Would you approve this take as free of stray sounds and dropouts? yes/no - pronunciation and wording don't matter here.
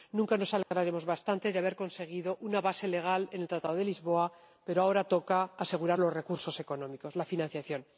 no